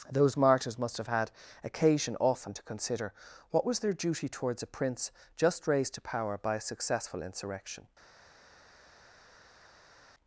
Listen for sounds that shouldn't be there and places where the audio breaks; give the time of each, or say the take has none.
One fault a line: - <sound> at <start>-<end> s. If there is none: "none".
none